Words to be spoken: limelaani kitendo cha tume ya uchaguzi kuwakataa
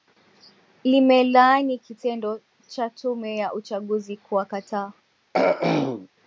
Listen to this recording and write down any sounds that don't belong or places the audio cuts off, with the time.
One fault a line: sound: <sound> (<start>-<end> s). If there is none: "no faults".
sound: throat clearing (5.3-6.1 s)